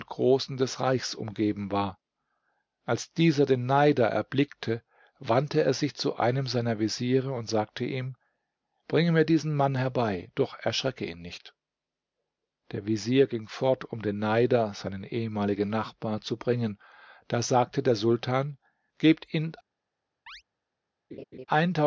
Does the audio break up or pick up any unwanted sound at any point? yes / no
yes